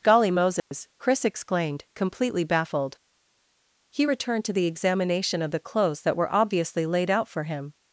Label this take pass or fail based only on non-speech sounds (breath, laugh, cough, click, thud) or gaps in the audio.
fail